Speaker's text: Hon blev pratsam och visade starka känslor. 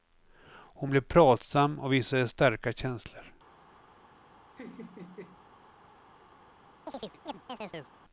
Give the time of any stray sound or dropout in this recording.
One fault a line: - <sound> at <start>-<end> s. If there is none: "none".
- laugh at 4.6-5.5 s
- chirp at 6.9-7.9 s